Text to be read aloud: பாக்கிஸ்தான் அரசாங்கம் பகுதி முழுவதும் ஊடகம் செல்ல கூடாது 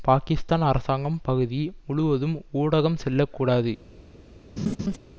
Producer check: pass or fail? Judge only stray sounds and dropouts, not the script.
fail